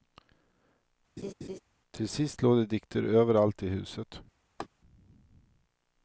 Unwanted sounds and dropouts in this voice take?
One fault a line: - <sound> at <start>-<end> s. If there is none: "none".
- laugh at 1.2-1.6 s
- laugh at 4.6-4.7 s